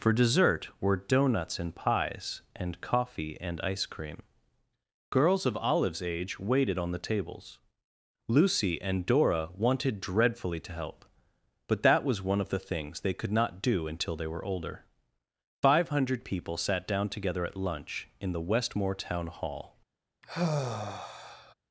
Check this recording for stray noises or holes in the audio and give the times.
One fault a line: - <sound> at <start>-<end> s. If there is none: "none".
- sigh at 20.2-21.5 s